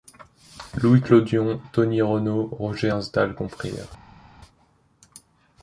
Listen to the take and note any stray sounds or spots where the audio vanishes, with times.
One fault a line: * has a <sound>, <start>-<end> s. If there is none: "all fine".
all fine